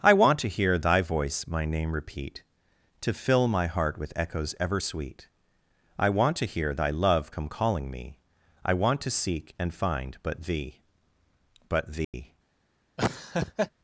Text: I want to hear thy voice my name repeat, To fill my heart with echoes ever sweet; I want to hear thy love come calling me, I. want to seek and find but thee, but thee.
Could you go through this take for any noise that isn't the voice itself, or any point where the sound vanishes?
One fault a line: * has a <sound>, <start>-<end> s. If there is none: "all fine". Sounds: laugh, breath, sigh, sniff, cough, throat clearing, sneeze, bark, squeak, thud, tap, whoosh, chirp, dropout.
* has a dropout, 12.0-12.1 s
* has a laugh, 13.0-13.7 s